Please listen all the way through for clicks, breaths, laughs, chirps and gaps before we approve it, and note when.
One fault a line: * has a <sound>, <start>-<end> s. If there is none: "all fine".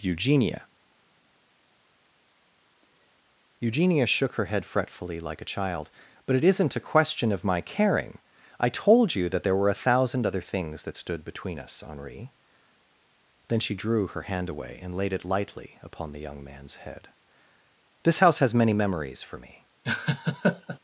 * has a laugh, 19.8-20.8 s